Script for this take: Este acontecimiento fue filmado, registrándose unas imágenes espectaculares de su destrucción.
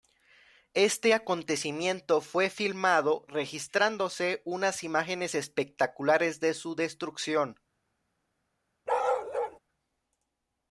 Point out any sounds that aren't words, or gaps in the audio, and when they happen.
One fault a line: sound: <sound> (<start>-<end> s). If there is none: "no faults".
sound: bark (8.9-9.6 s)